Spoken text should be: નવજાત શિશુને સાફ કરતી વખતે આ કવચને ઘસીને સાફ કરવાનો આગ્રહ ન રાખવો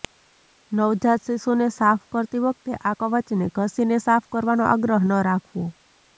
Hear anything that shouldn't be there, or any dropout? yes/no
no